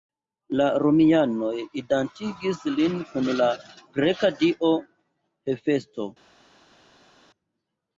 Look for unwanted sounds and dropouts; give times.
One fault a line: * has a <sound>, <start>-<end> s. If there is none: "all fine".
all fine